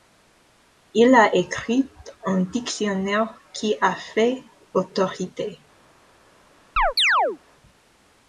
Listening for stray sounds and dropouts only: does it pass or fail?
fail